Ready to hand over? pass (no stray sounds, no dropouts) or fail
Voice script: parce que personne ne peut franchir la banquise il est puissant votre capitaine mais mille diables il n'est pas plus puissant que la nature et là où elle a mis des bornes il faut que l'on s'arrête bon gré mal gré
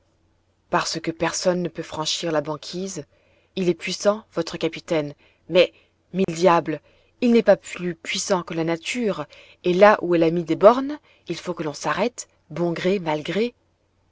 fail